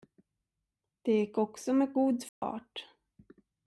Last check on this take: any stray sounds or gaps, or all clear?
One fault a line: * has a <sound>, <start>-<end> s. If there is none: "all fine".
* has a dropout, 2.3-2.4 s